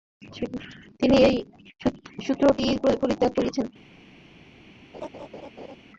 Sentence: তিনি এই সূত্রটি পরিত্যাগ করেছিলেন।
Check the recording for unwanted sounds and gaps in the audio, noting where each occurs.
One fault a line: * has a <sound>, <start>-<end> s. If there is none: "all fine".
* has a laugh, 4.9-5.8 s